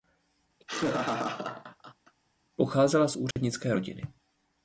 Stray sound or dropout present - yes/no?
yes